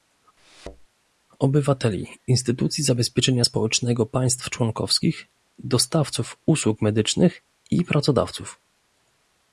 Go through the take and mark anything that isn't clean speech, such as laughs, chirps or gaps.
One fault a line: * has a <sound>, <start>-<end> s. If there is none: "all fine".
* has a thud, 0.4-0.9 s